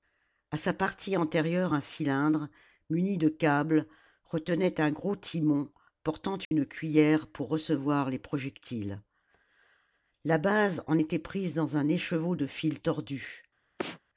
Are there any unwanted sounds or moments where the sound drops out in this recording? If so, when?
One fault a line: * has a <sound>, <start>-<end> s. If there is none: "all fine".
* has a dropout, 6.4-6.5 s
* has a sneeze, 13.8-14.0 s